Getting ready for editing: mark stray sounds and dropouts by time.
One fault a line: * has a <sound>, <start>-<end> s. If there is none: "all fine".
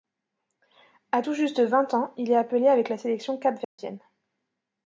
* has a dropout, 3.6-3.8 s